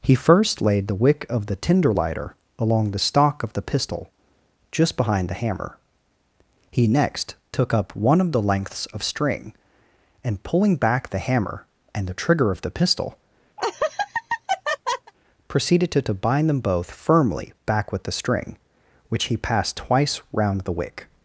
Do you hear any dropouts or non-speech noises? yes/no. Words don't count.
yes